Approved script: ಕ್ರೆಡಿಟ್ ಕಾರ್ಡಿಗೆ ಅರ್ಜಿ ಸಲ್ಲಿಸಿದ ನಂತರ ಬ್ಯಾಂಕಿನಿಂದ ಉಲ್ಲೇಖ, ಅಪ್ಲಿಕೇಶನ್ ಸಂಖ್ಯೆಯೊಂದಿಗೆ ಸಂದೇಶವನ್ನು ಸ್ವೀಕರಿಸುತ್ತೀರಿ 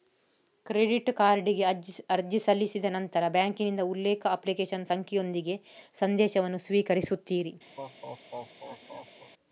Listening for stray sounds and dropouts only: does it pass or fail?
fail